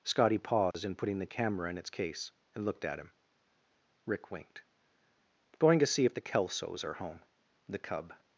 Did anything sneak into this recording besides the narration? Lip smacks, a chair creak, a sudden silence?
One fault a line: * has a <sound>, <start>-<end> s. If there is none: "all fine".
* has a dropout, 0.7-0.7 s